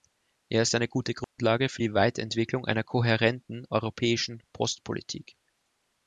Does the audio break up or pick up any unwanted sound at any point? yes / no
yes